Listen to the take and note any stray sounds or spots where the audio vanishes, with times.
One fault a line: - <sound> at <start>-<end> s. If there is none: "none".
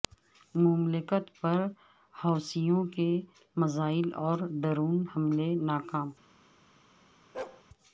- bark at 7.3-7.6 s